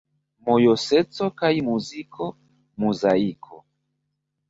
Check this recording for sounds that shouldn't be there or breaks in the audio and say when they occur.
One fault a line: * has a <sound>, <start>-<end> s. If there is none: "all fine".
all fine